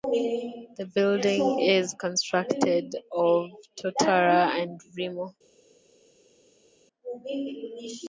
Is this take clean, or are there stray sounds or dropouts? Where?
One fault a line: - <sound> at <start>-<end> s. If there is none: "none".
none